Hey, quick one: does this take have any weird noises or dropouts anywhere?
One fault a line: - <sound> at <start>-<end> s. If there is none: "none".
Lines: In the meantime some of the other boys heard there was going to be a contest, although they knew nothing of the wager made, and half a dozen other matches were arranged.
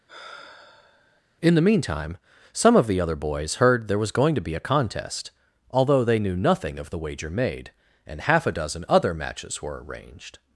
- sigh at 0.1-1.2 s